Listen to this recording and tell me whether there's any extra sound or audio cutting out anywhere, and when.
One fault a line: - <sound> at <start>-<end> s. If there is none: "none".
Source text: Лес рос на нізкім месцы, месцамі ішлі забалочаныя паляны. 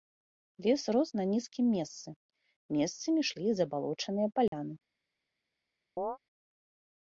- dropout at 4.5-4.5 s
- chirp at 6.0-6.2 s